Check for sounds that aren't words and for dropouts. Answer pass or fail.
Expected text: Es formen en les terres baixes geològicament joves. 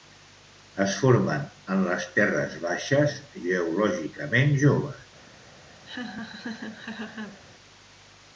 fail